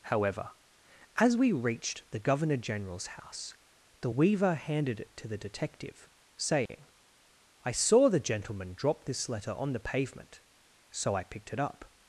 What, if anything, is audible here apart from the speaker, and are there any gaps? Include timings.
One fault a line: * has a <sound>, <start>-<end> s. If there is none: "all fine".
* has a dropout, 6.7-6.7 s